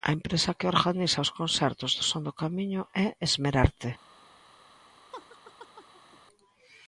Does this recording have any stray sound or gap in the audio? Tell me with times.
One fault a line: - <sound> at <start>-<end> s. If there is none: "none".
- laugh at 5.1-6.2 s